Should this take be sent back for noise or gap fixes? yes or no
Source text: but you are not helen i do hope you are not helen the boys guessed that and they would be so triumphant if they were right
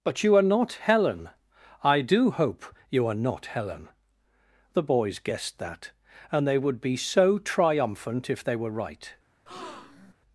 yes